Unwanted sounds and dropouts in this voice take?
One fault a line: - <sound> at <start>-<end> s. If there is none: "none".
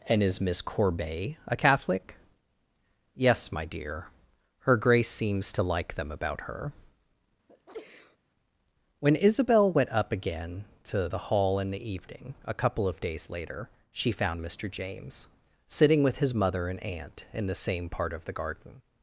- sneeze at 7.5-8.2 s